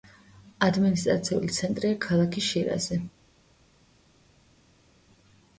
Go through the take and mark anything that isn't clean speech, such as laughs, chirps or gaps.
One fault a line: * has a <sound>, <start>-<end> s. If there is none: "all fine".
all fine